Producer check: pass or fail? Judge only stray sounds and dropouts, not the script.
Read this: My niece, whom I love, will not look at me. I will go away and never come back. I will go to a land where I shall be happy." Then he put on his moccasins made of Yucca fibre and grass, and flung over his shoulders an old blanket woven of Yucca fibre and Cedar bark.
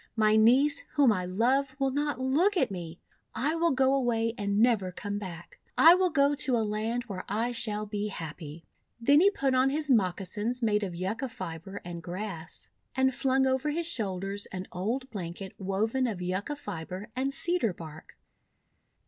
pass